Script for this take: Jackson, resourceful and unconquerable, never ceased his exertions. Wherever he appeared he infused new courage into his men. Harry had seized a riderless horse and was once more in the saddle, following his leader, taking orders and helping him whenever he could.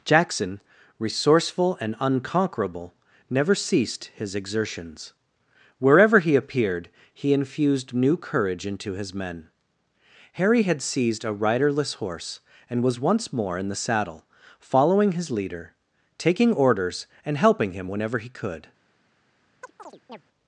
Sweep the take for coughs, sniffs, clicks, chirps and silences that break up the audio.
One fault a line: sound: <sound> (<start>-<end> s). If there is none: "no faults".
sound: chirp (19.6-20.2 s)